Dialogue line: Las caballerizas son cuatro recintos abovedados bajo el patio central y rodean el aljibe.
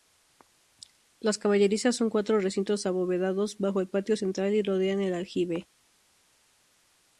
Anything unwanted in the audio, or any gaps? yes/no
no